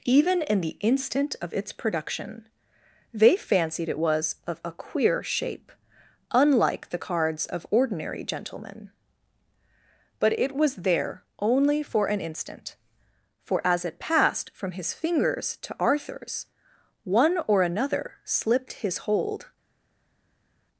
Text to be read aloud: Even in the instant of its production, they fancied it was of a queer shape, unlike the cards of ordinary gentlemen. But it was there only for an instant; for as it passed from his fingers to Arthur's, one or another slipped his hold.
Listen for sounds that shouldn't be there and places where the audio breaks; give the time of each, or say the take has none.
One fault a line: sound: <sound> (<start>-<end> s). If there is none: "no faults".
no faults